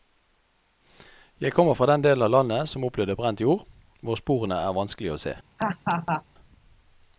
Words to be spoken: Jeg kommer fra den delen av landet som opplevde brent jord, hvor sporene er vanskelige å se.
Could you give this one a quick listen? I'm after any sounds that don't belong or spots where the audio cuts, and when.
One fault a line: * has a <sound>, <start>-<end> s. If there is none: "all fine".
* has a laugh, 5.6-6.2 s